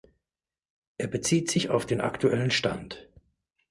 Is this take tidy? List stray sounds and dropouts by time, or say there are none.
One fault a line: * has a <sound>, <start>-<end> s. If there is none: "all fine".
all fine